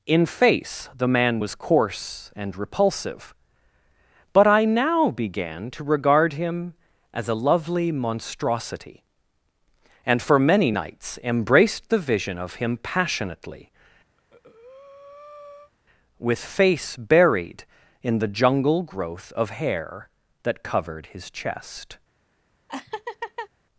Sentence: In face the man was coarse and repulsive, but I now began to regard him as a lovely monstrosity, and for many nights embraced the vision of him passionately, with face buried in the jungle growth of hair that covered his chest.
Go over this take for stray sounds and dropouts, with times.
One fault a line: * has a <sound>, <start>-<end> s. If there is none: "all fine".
* has a breath, 14.2-15.7 s
* has a laugh, 22.7-23.5 s